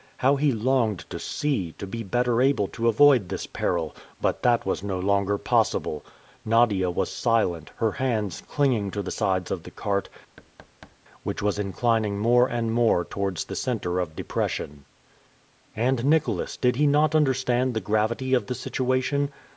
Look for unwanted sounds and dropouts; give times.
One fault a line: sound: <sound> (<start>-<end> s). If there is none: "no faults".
sound: thud (10.4-11.0 s)